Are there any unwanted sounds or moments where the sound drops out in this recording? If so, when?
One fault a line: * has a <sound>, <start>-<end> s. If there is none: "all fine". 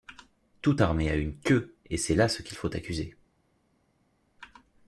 all fine